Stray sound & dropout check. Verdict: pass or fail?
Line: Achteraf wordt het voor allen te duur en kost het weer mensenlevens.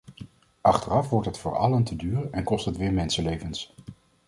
pass